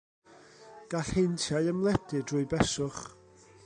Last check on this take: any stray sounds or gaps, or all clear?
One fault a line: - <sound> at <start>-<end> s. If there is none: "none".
none